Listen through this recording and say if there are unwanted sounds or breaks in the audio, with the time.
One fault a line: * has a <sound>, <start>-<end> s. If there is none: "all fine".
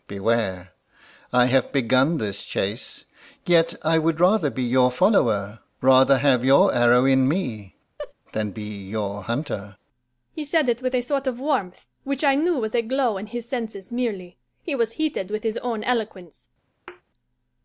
* has a laugh, 8.0-8.1 s
* has a thud, 16.9-17.0 s